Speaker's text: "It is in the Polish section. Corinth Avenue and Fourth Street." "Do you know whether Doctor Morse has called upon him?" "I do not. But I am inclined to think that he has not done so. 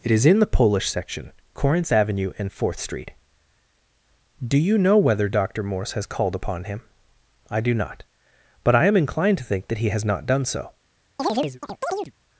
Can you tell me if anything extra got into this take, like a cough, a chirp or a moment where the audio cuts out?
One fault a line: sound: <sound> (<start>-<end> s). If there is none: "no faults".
sound: chirp (11.2-12.1 s)